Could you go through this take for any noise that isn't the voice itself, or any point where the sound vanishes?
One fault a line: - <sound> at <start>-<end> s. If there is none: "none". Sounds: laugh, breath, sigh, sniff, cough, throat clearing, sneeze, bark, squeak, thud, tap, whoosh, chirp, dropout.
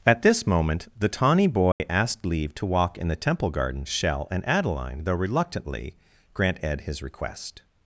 - dropout at 1.7-1.8 s